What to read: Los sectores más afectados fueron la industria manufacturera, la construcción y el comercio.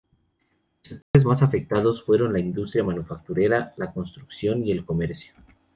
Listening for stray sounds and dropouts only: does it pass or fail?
fail